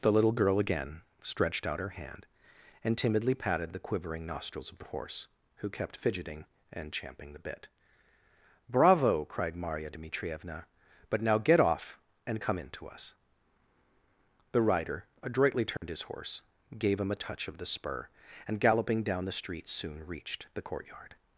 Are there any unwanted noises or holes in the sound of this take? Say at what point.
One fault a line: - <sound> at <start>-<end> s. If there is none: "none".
- dropout at 15.8-15.8 s